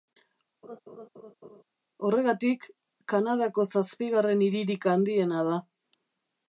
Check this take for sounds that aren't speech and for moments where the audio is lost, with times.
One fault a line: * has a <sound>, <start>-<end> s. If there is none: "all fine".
* has a laugh, 0.6-1.6 s